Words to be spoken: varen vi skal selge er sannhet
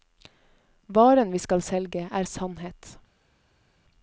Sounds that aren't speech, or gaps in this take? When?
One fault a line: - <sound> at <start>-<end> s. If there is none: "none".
none